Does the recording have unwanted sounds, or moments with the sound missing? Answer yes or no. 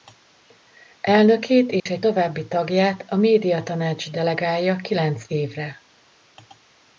yes